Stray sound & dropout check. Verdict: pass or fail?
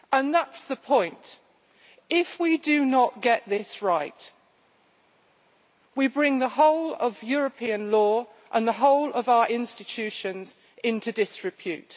pass